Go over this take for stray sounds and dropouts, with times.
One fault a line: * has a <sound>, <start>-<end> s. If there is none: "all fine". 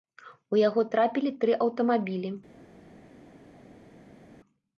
all fine